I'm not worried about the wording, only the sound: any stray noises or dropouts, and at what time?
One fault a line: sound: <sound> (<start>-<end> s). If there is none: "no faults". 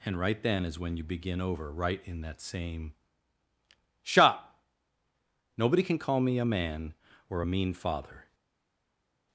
no faults